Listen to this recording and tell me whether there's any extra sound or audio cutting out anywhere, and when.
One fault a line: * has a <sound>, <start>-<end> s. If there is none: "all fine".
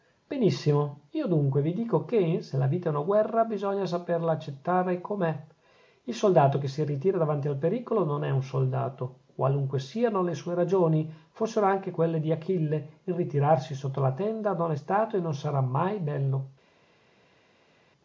all fine